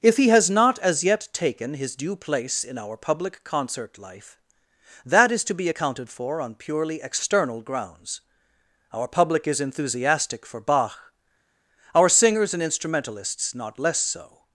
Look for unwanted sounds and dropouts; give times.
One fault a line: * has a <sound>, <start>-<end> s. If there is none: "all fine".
all fine